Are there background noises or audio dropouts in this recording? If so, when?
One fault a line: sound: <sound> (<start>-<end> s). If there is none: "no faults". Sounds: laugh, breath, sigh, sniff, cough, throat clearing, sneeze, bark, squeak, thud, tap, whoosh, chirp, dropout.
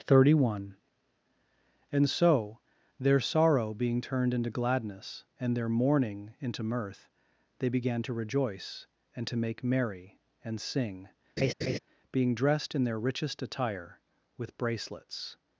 sound: laugh (11.4-11.8 s)